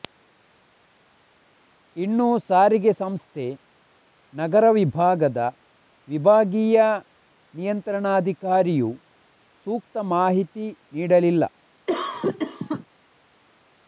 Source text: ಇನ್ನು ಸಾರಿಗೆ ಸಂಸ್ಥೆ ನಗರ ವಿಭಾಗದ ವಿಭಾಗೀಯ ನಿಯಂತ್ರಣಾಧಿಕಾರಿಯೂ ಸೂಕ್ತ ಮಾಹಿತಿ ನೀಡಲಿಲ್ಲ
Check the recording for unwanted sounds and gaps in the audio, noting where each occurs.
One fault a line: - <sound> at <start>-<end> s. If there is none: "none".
- cough at 11.9-12.9 s